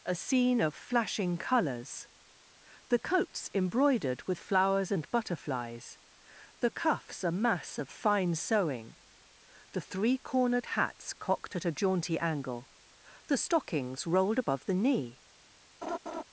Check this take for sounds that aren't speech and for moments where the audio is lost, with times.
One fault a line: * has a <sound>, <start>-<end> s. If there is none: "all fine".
* has a laugh, 15.8-16.2 s